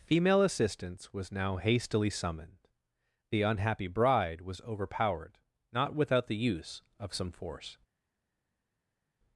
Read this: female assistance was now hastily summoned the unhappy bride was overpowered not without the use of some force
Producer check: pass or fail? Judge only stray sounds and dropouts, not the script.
pass